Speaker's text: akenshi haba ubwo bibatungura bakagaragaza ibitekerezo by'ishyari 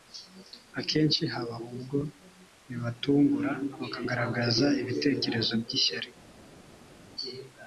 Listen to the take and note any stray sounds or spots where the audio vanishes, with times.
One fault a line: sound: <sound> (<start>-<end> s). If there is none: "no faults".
no faults